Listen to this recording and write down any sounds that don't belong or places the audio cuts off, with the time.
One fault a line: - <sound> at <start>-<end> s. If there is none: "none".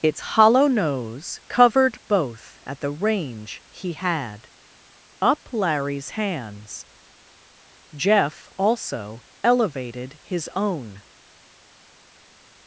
none